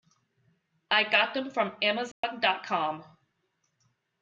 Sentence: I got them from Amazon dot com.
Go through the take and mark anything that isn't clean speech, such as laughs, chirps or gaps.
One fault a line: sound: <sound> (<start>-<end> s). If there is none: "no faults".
sound: dropout (2.1-2.2 s)